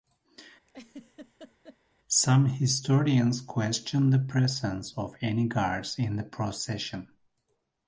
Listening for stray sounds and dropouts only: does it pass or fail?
fail